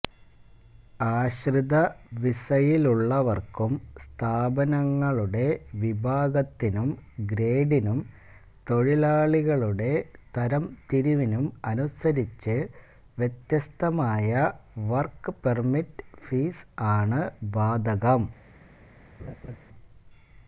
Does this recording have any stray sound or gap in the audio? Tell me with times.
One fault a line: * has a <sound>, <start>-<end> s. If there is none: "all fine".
* has a laugh, 19.2-19.6 s